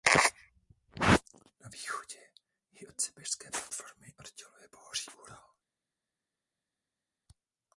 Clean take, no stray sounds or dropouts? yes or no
yes